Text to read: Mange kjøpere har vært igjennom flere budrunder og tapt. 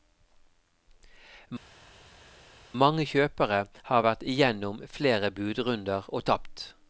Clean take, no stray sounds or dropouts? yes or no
yes